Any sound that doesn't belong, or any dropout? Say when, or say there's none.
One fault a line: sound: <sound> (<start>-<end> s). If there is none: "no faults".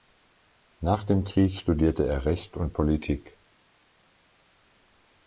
no faults